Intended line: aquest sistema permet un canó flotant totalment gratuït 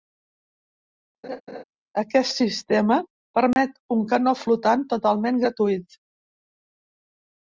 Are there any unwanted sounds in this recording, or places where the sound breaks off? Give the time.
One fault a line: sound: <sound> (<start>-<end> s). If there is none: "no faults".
sound: laugh (1.2-1.6 s)
sound: dropout (3.5-3.6 s)